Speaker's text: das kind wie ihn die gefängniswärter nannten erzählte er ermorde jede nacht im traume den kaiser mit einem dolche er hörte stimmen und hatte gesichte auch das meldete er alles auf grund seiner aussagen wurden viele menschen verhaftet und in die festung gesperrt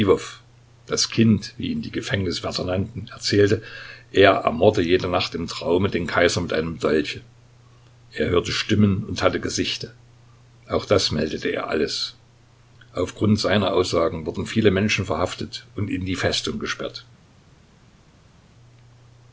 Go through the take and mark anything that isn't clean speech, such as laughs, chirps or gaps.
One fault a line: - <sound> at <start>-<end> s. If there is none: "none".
none